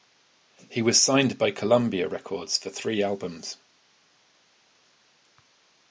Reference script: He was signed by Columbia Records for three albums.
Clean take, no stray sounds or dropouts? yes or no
yes